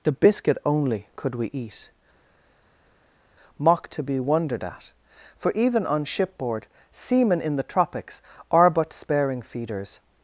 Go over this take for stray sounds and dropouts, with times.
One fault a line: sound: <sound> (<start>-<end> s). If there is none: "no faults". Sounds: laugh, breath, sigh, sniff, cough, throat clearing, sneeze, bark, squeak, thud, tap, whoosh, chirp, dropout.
no faults